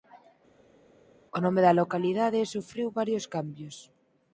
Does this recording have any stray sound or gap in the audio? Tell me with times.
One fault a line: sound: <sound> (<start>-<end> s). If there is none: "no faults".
no faults